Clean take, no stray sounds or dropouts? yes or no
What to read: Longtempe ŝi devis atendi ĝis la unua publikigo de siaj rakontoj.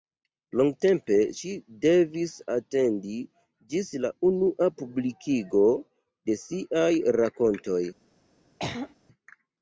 no